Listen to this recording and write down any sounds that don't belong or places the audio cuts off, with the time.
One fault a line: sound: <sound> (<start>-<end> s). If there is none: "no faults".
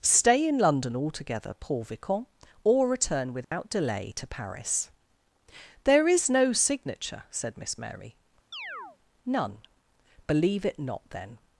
sound: dropout (3.4-3.5 s)
sound: chirp (8.5-9.0 s)